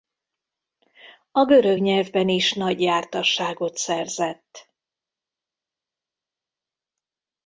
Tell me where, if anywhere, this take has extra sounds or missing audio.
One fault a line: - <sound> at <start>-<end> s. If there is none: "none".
none